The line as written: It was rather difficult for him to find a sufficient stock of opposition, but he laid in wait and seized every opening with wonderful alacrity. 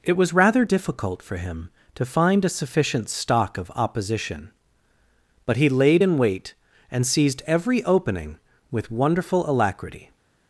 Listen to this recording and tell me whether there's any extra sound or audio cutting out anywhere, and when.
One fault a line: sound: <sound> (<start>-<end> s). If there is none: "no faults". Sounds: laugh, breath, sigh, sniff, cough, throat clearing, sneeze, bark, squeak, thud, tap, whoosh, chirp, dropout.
no faults